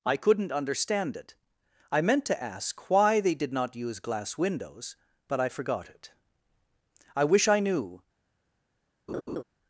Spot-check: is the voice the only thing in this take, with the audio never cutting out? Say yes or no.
no